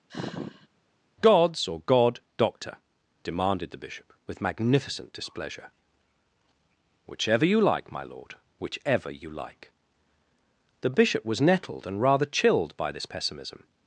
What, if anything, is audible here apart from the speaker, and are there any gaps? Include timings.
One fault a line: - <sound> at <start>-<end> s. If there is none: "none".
- sigh at 0.1-0.7 s